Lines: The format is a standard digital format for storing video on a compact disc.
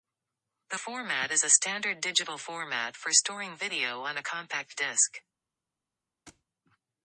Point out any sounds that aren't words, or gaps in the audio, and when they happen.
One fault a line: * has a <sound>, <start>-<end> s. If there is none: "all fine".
* has a thud, 6.3-6.4 s